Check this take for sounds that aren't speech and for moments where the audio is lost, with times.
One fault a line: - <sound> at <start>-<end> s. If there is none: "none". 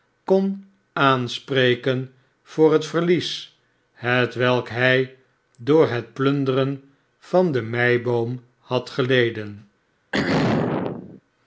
- throat clearing at 10.1-11.2 s